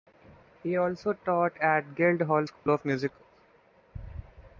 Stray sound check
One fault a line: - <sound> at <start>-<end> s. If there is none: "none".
- dropout at 2.6-2.7 s